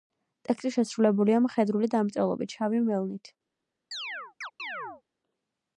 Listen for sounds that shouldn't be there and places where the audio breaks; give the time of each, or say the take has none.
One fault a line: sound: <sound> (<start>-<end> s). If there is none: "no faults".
sound: chirp (3.9-5.0 s)